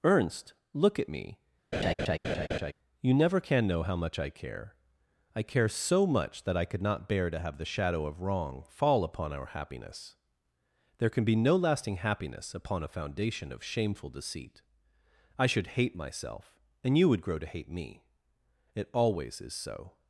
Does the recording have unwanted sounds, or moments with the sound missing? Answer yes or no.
yes